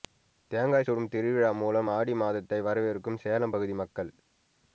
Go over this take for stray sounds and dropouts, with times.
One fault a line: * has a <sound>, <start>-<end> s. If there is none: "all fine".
all fine